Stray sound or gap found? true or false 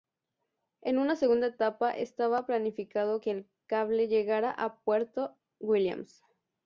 false